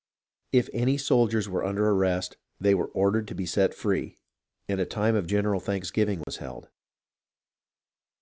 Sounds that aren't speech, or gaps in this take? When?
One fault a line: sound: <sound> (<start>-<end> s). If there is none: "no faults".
sound: dropout (6.2-6.3 s)